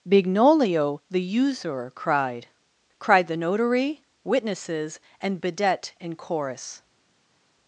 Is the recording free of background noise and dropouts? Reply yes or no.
yes